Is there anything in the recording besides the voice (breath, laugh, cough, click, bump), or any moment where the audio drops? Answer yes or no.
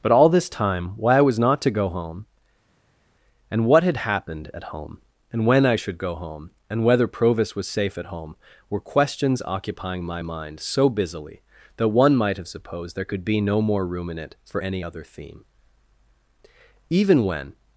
no